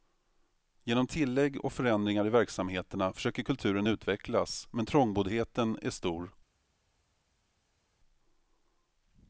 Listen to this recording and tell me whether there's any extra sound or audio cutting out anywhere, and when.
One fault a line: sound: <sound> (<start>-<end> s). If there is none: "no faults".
no faults